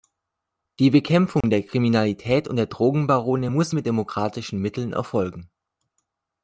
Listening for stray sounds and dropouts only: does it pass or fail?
fail